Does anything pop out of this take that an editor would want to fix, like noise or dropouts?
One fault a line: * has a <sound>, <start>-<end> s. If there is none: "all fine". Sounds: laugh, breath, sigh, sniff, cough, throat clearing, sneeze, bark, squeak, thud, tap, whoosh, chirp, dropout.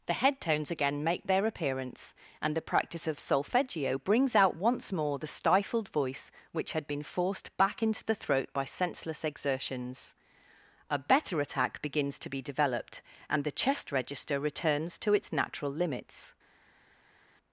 all fine